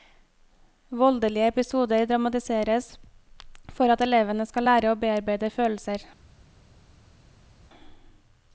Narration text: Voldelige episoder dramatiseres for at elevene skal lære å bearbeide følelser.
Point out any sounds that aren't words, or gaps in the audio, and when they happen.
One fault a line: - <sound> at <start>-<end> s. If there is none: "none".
none